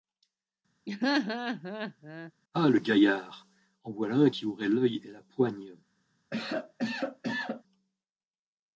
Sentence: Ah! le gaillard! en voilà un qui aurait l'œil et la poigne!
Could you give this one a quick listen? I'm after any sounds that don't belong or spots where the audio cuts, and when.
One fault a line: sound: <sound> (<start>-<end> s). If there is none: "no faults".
sound: laugh (0.9-2.3 s)
sound: cough (6.3-7.6 s)